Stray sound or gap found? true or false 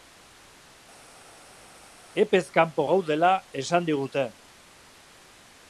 false